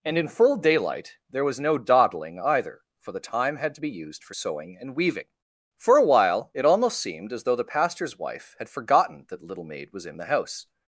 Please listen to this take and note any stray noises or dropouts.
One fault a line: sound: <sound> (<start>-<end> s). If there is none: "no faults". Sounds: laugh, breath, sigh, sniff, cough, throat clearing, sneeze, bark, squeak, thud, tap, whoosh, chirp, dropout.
no faults